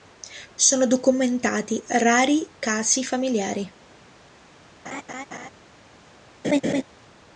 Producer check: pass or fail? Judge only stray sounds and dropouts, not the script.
fail